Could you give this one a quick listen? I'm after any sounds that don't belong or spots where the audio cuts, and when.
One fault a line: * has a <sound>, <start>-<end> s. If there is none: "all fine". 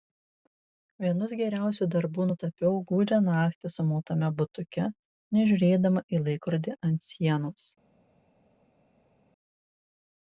all fine